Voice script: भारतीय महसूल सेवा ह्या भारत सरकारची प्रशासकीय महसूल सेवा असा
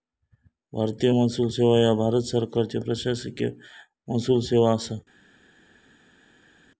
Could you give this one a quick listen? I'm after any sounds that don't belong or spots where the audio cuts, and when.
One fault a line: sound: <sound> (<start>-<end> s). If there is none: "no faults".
no faults